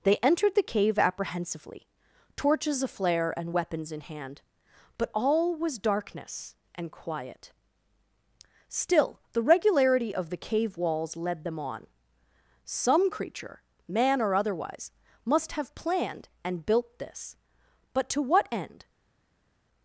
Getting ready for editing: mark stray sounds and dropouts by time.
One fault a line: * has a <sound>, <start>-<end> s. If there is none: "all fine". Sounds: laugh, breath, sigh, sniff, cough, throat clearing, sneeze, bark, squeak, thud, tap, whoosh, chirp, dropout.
all fine